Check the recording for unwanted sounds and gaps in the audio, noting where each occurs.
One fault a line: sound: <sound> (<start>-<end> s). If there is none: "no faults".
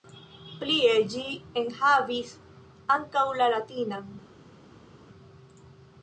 no faults